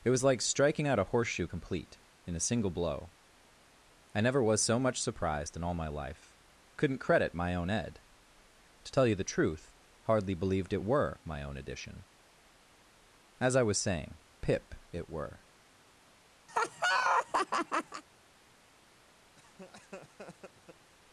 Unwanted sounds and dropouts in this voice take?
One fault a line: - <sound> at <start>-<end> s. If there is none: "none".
- laugh at 16.5-18.0 s
- laugh at 19.4-20.9 s